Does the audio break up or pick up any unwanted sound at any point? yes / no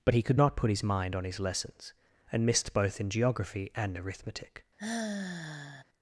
yes